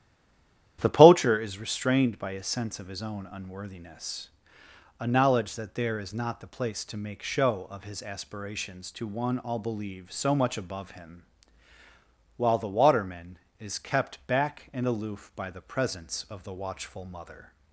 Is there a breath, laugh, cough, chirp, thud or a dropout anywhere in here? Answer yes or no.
no